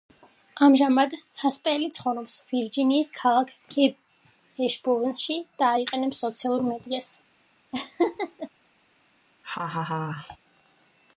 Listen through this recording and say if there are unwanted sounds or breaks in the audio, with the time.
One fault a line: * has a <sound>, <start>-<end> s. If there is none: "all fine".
* has a laugh, 7.7-8.5 s
* has a laugh, 9.4-10.4 s